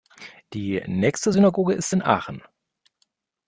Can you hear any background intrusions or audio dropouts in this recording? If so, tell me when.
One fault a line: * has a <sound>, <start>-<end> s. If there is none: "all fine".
all fine